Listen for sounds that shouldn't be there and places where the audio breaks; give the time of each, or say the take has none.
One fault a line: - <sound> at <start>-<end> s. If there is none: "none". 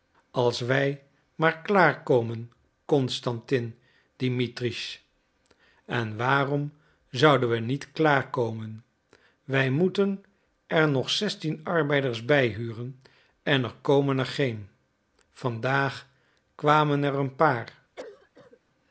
- cough at 18.0-18.6 s